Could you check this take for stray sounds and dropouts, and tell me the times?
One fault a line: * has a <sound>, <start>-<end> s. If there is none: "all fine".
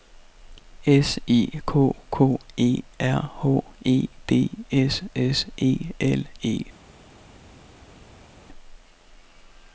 all fine